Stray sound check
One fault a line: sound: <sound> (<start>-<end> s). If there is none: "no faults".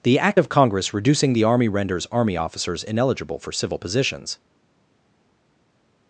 no faults